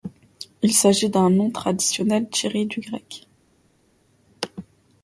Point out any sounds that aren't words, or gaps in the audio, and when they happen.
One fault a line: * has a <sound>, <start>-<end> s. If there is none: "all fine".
all fine